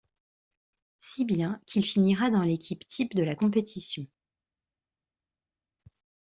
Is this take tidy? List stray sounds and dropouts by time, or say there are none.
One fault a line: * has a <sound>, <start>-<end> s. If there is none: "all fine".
all fine